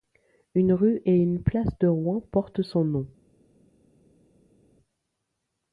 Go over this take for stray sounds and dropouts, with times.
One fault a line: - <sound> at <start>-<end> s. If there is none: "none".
none